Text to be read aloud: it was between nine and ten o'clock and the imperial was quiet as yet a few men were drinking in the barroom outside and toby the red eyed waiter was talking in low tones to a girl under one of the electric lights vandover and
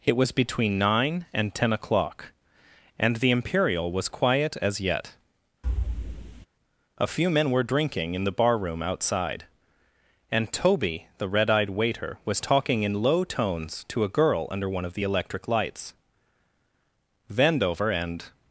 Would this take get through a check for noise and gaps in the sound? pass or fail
fail